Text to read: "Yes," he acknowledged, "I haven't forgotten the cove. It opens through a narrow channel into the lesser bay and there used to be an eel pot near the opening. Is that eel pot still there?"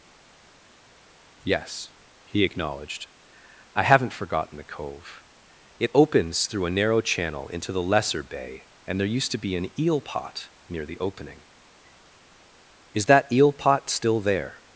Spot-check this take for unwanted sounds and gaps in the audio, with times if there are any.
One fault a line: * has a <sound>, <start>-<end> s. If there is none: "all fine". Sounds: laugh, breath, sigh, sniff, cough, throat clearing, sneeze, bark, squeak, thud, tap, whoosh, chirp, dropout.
all fine